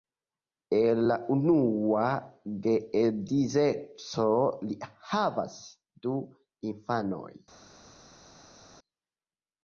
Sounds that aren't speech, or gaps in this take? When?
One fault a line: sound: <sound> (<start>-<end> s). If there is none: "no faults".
no faults